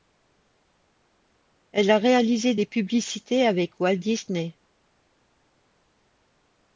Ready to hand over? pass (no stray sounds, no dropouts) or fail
pass